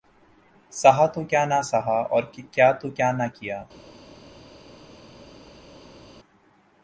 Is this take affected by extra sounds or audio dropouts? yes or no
no